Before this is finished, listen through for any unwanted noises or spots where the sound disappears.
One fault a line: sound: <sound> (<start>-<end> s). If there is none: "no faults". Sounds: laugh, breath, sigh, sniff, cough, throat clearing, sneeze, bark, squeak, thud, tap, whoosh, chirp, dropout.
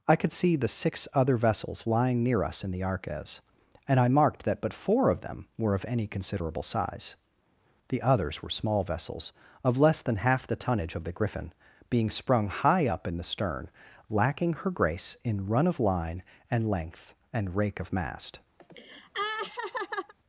sound: laugh (18.6-20.1 s)